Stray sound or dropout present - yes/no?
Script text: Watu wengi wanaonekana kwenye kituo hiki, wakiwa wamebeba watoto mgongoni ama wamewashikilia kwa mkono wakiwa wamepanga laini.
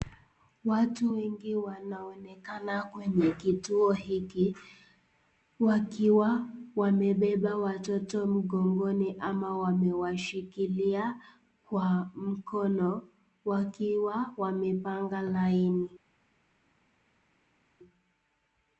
no